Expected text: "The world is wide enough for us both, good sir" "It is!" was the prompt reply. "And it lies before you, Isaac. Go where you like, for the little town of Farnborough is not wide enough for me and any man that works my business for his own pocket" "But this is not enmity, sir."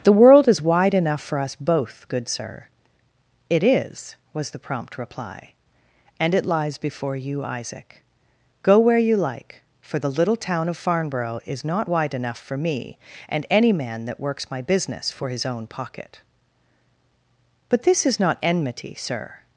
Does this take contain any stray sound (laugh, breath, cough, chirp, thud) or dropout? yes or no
no